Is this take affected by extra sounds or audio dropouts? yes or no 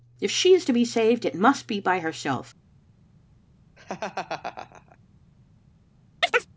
yes